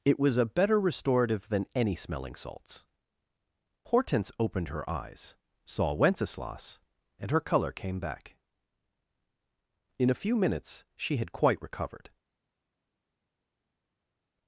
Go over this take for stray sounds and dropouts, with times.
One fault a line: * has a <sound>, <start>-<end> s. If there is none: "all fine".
all fine